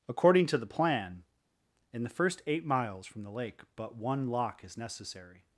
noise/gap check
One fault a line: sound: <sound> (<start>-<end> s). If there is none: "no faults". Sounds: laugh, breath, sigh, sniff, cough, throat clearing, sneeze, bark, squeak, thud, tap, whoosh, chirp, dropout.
no faults